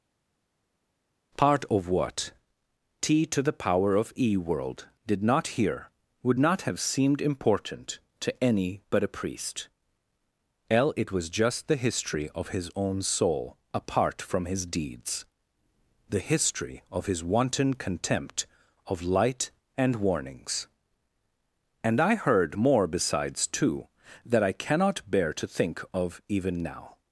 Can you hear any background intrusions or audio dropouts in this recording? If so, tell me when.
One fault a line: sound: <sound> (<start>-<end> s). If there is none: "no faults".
no faults